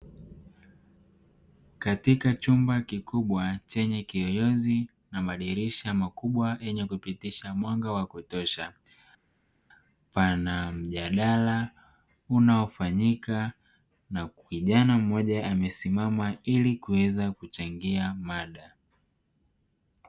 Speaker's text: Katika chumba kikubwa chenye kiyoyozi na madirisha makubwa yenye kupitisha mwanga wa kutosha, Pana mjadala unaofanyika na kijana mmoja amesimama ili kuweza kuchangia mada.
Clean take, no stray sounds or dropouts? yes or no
yes